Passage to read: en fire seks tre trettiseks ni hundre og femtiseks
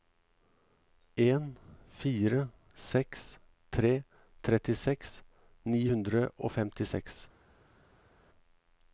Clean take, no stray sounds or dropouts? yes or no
yes